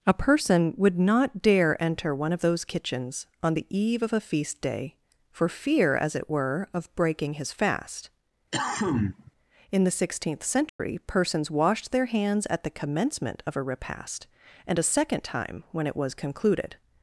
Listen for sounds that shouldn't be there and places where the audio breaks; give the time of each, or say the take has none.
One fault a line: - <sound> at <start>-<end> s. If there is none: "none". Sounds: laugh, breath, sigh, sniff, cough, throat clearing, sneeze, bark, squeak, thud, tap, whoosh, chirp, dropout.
- cough at 8.5-9.3 s
- dropout at 10.7-10.8 s